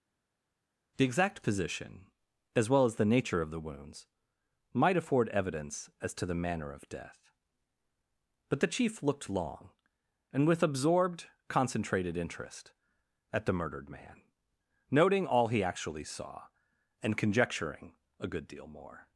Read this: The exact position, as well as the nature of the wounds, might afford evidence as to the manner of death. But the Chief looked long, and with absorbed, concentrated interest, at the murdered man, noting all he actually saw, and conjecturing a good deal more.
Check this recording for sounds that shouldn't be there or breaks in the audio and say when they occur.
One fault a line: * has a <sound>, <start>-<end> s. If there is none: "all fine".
all fine